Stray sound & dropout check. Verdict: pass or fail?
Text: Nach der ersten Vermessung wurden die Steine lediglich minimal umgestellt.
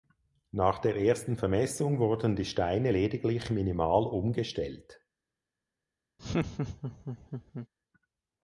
fail